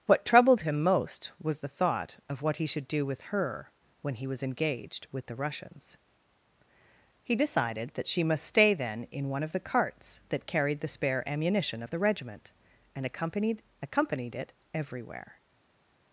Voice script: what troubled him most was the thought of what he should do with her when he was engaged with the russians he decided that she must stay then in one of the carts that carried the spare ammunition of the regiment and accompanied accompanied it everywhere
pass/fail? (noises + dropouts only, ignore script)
pass